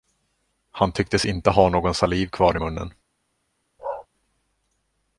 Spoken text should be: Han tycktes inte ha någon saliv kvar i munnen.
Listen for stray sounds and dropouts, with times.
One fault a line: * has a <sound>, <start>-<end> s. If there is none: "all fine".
* has a bark, 3.8-4.1 s